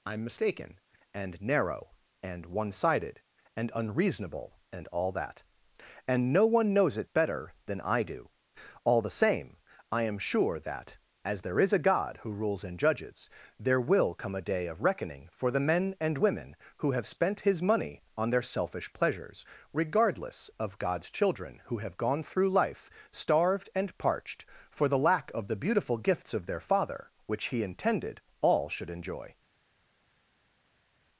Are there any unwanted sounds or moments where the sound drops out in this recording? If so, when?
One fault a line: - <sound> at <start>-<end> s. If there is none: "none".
none